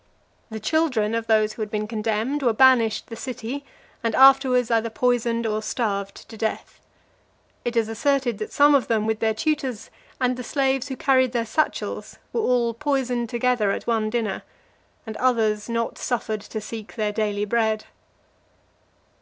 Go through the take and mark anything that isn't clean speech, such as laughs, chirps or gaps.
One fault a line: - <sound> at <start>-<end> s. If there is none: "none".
none